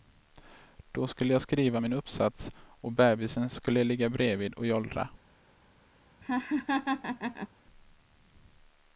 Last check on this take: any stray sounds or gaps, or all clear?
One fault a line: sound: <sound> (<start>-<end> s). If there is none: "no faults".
sound: laugh (6.2-7.5 s)